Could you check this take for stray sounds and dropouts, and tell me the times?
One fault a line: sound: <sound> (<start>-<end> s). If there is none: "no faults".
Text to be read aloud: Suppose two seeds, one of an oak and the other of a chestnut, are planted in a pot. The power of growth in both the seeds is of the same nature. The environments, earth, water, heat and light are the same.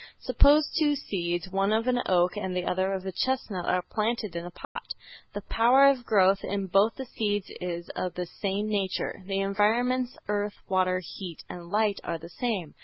sound: dropout (4.6-4.8 s)